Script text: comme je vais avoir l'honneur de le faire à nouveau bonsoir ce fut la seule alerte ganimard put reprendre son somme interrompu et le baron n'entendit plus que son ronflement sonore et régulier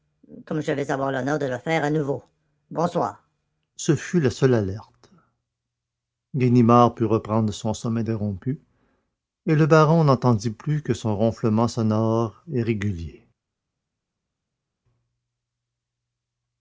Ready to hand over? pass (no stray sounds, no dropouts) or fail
pass